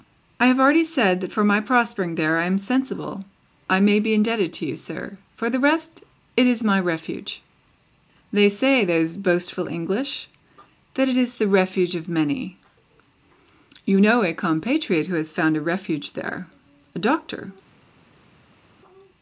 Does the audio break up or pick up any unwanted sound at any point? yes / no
no